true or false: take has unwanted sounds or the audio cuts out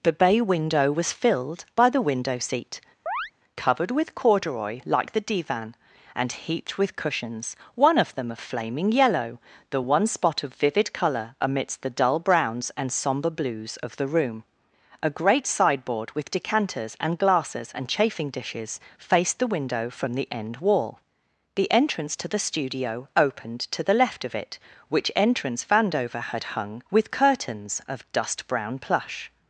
true